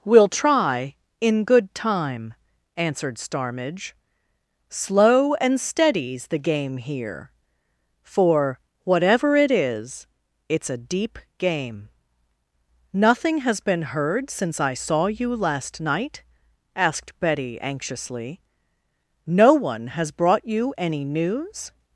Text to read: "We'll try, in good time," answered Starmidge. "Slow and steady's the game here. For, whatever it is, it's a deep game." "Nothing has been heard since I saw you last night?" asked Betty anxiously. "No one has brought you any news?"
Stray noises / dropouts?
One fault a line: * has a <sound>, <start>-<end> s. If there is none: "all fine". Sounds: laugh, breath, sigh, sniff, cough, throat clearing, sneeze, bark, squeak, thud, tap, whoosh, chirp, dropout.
all fine